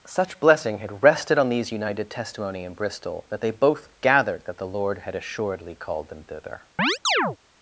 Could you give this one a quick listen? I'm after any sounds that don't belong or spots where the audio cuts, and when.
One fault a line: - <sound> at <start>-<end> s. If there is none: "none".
- chirp at 6.8-7.4 s